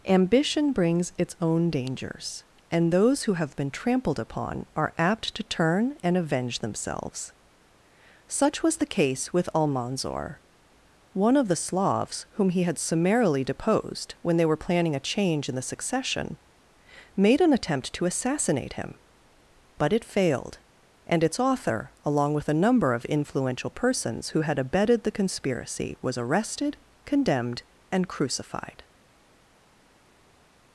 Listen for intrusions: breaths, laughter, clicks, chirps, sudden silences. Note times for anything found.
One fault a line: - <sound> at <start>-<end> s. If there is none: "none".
none